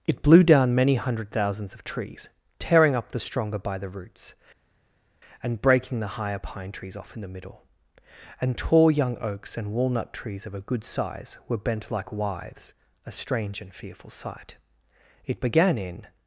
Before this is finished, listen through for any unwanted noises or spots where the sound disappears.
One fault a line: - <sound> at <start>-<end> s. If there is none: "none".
none